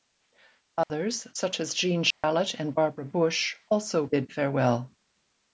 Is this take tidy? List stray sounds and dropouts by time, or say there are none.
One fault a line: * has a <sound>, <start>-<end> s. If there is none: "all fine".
* has a dropout, 0.8-0.9 s
* has a dropout, 2.1-2.2 s